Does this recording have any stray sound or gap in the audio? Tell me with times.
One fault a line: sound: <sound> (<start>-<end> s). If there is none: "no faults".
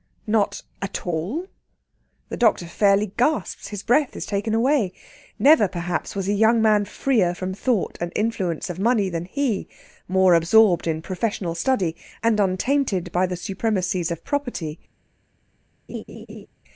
sound: laugh (15.9-16.5 s)